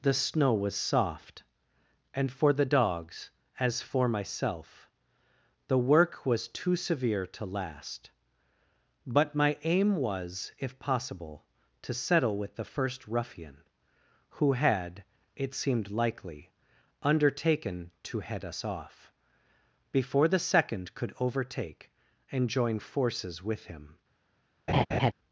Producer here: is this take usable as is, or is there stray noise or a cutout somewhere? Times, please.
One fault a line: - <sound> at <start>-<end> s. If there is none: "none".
- laugh at 24.7-25.1 s